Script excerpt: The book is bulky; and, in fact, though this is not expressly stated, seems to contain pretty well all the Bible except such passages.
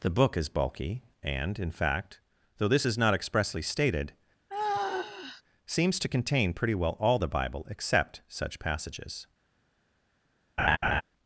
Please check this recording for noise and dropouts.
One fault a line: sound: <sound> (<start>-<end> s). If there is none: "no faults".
sound: sigh (4.5-5.4 s)
sound: laugh (10.6-11.0 s)